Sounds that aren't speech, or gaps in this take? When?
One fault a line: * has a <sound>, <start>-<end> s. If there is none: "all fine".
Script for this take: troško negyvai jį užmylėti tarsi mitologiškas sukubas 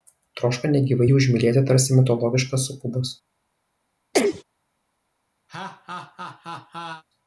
* has a sneeze, 4.1-4.4 s
* has a laugh, 5.5-7.0 s